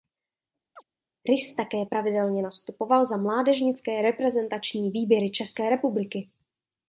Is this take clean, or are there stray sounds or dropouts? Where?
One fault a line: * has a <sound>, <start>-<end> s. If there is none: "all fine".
* has a chirp, 0.8-0.8 s